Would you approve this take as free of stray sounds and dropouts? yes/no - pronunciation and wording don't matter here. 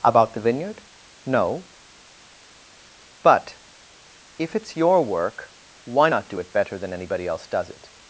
yes